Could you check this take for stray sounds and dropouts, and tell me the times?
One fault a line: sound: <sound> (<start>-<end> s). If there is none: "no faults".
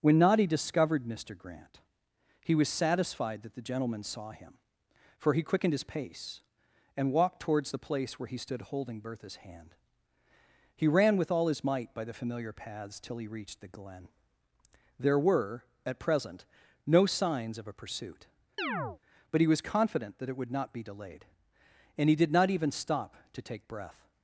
sound: chirp (18.6-19.0 s)